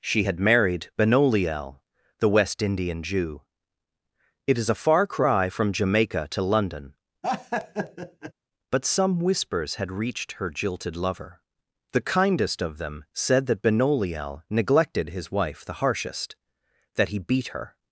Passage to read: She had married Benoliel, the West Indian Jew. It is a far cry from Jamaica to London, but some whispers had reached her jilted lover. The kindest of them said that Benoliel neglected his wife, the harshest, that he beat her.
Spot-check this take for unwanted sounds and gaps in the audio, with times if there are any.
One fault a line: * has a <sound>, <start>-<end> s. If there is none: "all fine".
* has a laugh, 7.2-8.3 s